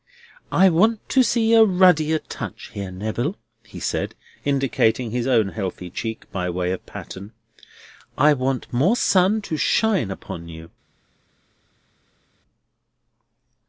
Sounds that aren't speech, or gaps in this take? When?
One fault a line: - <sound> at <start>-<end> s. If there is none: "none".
none